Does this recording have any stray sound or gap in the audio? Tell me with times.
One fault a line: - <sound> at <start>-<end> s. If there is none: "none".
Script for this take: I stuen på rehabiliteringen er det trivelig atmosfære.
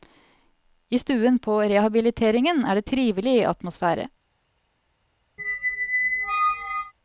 - squeak at 5.4-6.9 s